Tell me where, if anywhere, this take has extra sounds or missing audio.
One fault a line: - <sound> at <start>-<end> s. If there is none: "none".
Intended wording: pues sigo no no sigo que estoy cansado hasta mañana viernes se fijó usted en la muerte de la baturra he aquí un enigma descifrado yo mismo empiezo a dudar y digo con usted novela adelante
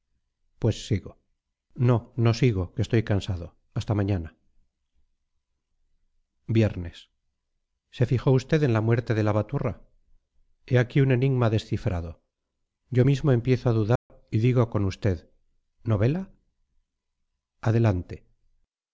- dropout at 14.0-14.1 s